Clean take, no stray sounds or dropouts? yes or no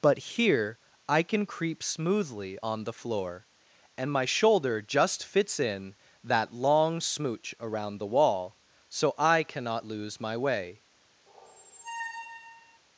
no